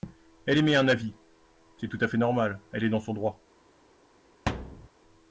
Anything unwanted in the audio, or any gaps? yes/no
yes